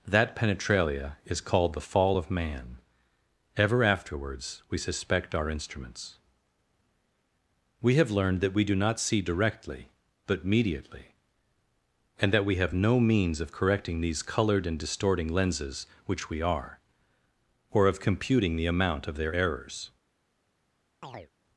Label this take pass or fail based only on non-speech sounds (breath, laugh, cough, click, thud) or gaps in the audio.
fail